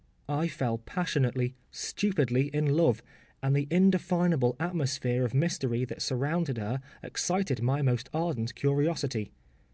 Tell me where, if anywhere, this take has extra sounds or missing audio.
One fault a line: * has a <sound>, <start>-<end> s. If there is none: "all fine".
all fine